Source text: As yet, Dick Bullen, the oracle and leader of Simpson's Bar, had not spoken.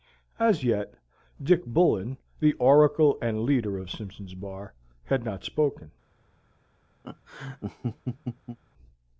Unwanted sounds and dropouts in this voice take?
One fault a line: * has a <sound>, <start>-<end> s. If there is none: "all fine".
* has a laugh, 7.0-8.6 s